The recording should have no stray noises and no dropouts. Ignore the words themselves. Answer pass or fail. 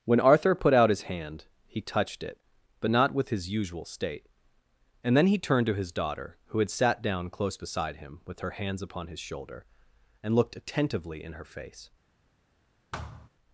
fail